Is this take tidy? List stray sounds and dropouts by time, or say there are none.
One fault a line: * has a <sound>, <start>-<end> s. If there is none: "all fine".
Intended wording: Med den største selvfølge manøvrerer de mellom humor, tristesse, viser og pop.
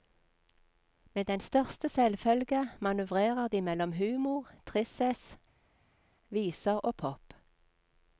all fine